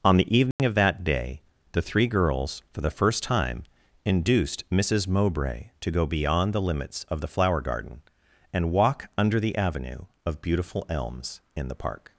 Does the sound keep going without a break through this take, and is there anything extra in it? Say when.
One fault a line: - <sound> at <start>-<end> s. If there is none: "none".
- dropout at 0.5-0.6 s